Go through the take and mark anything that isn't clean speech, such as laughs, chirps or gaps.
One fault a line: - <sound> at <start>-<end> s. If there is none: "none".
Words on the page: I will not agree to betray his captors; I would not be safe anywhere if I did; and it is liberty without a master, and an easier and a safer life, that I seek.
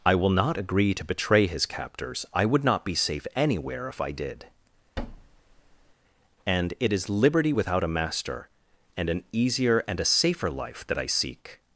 - thud at 5.0-5.9 s